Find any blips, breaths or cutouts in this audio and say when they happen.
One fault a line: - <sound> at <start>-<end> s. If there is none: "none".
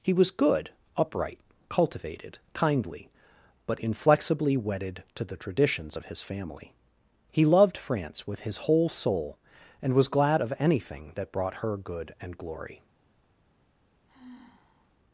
- sigh at 14.1-14.9 s